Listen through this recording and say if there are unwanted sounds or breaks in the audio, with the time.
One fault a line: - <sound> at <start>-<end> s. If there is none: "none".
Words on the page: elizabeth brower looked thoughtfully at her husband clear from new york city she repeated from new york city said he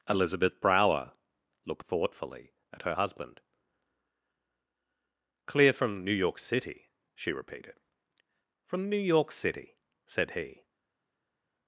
none